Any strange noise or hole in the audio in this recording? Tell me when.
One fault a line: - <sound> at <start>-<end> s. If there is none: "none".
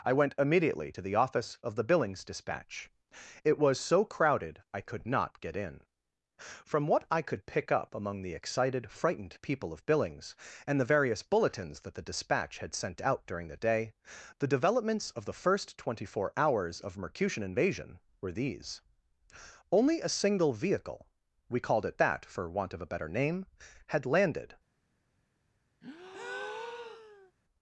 - breath at 25.8-27.3 s